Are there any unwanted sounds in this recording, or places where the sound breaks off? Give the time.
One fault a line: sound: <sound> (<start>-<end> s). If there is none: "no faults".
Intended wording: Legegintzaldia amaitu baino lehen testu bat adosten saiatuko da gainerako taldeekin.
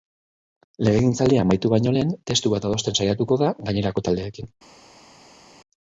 no faults